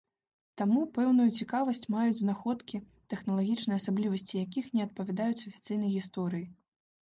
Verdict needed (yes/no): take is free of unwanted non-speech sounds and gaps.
yes